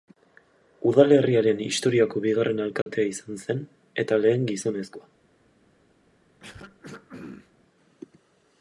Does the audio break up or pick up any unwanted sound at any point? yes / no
yes